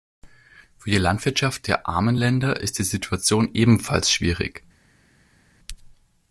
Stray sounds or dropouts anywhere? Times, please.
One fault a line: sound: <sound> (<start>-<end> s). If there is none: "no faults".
no faults